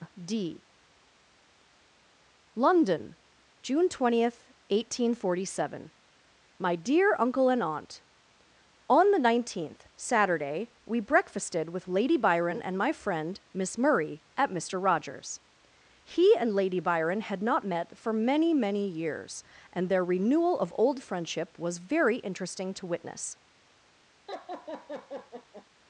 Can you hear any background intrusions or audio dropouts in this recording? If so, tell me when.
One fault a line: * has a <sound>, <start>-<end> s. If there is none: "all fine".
* has a laugh, 24.3-25.7 s